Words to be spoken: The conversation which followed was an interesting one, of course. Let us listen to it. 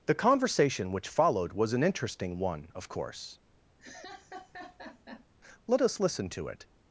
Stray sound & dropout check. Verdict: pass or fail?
fail